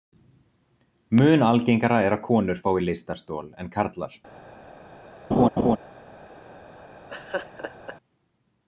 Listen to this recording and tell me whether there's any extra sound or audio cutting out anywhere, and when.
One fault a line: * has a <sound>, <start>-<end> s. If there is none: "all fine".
* has a laugh, 5.3-5.8 s
* has a laugh, 7.1-8.0 s